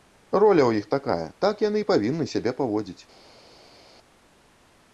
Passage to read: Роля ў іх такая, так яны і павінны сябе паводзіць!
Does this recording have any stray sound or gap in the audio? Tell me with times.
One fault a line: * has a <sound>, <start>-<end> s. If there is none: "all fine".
all fine